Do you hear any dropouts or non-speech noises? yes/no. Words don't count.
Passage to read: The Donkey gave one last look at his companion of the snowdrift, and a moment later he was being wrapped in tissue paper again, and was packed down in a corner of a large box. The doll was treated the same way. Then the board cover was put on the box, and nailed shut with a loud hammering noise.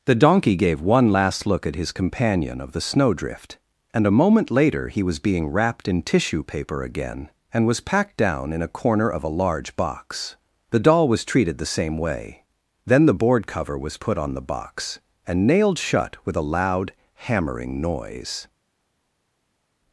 no